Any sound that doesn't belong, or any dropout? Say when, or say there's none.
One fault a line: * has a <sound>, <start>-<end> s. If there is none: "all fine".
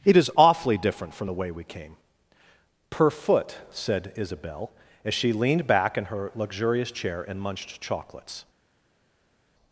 all fine